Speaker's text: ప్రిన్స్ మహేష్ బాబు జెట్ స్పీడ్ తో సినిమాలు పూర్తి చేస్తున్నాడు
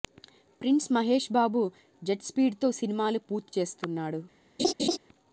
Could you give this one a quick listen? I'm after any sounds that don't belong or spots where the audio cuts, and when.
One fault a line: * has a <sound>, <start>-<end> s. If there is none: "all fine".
* has a laugh, 4.6-5.0 s